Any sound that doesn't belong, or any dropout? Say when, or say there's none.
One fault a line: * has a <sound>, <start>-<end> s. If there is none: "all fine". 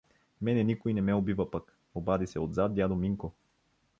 all fine